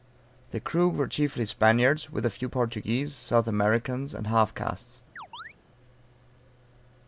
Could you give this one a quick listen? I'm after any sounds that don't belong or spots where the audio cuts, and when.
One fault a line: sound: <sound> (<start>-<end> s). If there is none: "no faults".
sound: chirp (5.2-5.5 s)